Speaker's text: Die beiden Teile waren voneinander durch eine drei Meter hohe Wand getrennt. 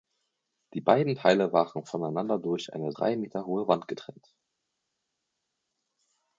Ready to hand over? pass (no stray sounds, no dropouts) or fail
pass